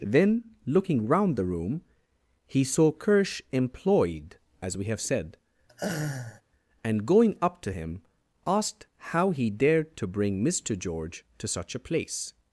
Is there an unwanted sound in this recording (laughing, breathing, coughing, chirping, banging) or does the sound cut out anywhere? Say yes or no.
yes